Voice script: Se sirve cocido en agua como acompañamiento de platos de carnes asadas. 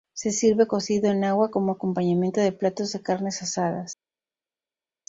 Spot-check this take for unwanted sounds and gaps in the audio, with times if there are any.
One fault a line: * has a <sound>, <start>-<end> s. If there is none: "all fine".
all fine